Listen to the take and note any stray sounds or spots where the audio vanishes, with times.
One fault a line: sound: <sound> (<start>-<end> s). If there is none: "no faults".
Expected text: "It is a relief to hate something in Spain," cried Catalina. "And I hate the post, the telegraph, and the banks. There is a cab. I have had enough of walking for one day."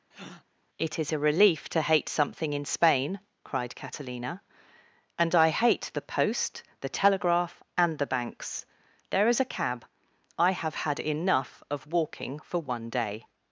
sound: breath (0.1-0.4 s)